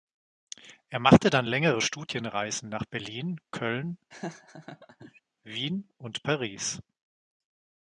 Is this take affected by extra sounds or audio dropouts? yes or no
yes